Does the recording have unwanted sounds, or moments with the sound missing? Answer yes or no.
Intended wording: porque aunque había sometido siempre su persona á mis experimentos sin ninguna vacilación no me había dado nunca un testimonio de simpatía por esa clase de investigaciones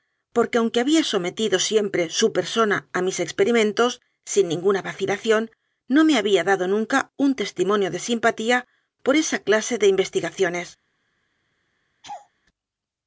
yes